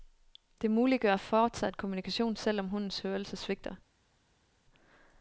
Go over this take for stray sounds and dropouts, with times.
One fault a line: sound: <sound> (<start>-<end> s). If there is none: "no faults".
no faults